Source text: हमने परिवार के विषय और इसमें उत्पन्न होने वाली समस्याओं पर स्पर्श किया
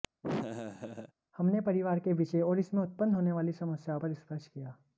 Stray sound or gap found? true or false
true